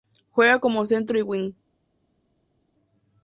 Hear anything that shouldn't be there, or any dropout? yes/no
no